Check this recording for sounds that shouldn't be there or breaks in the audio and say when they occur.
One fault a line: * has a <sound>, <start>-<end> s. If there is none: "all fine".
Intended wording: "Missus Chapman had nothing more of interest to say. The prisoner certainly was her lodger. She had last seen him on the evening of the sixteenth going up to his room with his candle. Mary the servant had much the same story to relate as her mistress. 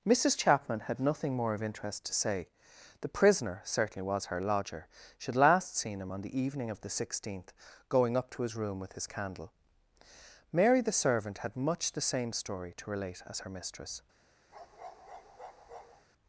* has a bark, 14.5-16.1 s